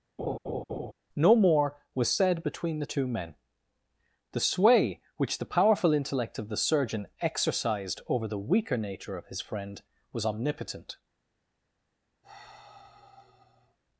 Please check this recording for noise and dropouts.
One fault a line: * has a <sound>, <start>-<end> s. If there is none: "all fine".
* has a laugh, 0.2-0.9 s
* has a sigh, 12.2-13.8 s